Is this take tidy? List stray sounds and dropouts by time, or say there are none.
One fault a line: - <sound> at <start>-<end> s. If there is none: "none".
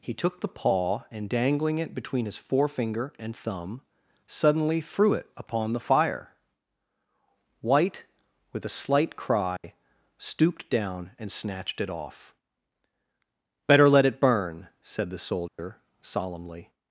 - dropout at 9.6-9.6 s
- dropout at 15.5-15.6 s